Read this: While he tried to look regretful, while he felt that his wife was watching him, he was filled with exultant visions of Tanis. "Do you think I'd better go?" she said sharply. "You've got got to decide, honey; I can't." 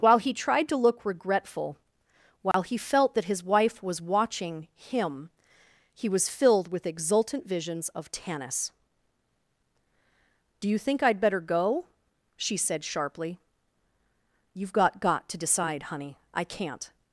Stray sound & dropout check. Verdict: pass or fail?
fail